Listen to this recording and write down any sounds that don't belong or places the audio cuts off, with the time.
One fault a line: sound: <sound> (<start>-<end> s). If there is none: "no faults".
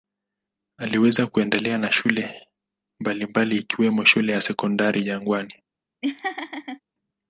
sound: laugh (6.0-6.8 s)